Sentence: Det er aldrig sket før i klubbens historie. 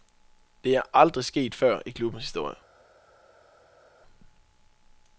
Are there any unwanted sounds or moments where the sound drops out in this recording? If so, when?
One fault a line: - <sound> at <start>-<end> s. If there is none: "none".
none